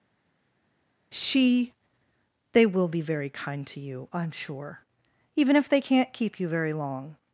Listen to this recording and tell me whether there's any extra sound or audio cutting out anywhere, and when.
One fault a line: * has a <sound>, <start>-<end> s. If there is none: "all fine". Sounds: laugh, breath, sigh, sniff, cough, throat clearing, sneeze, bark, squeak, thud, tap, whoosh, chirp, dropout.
all fine